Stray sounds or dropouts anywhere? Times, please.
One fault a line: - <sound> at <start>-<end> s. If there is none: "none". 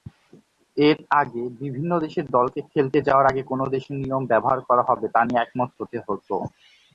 none